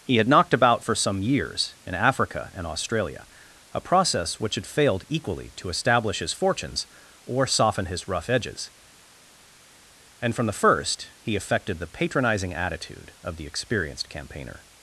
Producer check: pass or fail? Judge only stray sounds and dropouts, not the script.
pass